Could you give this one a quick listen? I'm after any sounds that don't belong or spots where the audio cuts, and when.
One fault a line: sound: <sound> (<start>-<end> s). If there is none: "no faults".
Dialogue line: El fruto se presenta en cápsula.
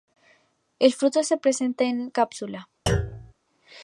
sound: thud (2.9-3.3 s)